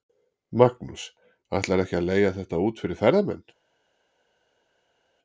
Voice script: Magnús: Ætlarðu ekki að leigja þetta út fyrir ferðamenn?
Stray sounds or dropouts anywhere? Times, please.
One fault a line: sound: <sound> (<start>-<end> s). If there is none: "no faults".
no faults